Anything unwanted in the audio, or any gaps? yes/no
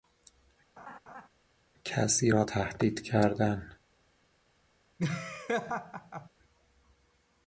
yes